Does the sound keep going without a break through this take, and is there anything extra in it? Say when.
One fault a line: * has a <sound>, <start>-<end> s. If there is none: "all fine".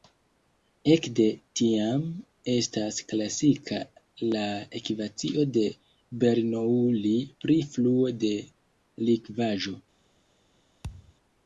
* has a thud, 10.8-11.1 s